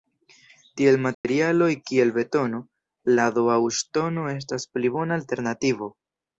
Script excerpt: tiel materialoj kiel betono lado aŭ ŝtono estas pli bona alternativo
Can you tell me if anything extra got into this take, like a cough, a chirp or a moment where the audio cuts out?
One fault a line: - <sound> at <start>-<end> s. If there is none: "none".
- dropout at 1.1-1.2 s